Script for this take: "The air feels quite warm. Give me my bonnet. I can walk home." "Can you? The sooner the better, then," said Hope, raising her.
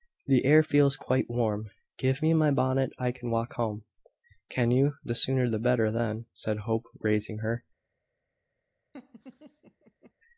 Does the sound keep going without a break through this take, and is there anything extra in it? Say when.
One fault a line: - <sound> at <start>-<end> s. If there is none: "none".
- laugh at 8.9-10.1 s